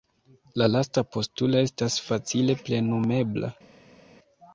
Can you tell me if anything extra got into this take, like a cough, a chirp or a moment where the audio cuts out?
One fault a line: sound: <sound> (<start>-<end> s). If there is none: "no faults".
no faults